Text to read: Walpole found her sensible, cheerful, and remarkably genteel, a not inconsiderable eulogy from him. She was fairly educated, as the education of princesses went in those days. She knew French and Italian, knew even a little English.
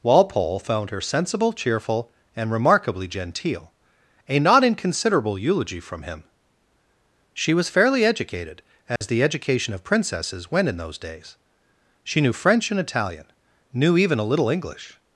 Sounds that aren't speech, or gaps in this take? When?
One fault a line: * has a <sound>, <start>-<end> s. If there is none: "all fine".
* has a dropout, 9.0-9.0 s